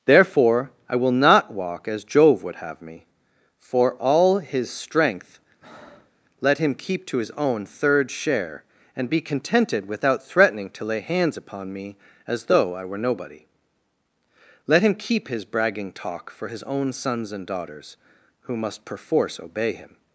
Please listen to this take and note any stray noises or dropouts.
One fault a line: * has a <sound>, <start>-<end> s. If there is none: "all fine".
* has a breath, 5.6-6.2 s